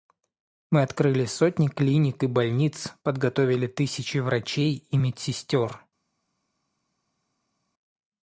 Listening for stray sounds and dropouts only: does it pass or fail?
pass